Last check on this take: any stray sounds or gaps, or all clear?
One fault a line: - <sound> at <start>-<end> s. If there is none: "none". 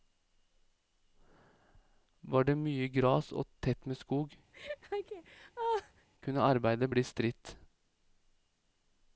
- laugh at 4.5-6.1 s